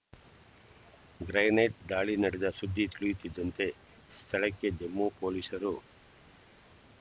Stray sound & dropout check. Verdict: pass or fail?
pass